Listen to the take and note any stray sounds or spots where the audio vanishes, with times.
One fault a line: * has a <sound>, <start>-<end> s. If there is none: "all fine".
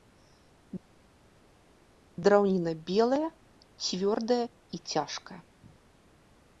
all fine